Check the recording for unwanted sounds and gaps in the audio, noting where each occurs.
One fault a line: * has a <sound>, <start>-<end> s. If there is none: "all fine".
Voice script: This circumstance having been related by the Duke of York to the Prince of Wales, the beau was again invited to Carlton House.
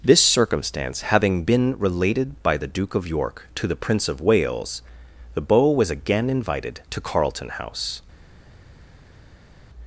all fine